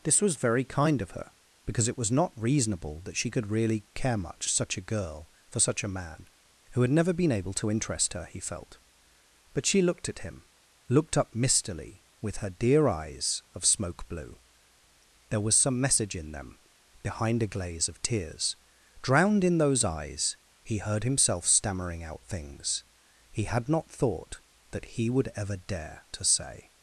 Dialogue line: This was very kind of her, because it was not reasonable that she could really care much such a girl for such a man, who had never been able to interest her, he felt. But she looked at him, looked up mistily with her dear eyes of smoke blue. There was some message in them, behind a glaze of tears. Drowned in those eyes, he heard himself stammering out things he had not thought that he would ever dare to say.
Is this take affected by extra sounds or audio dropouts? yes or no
no